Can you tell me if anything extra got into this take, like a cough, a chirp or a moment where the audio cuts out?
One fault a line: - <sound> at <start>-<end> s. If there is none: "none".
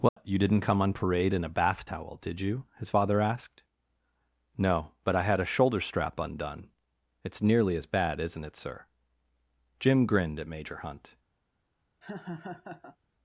- dropout at 0.1-0.2 s
- laugh at 12.0-13.0 s